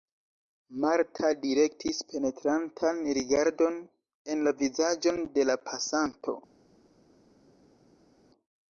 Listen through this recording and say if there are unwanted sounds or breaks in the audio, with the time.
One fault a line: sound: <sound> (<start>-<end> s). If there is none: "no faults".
no faults